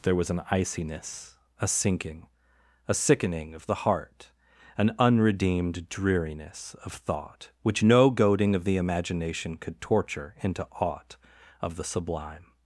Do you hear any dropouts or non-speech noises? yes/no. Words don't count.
no